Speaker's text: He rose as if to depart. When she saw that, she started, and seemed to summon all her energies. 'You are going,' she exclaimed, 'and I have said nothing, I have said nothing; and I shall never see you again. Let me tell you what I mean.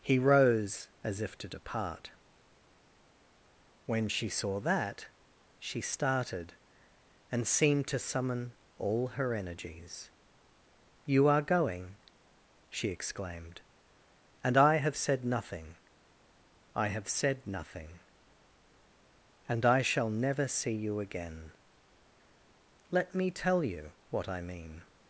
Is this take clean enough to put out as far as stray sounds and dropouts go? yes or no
yes